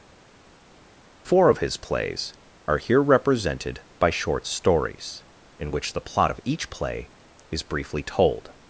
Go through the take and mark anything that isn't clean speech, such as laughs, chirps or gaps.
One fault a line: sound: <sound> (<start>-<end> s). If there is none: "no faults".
no faults